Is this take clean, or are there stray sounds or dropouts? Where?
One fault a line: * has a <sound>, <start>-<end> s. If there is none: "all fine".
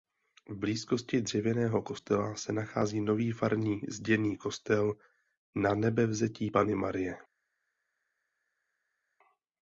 all fine